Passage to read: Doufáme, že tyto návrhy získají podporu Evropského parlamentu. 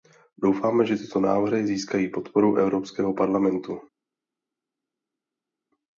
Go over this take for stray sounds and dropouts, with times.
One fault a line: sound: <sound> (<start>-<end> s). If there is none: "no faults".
no faults